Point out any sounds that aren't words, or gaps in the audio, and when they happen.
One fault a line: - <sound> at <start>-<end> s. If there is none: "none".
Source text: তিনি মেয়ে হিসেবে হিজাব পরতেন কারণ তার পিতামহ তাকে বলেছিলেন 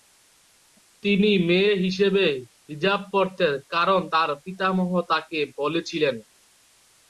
none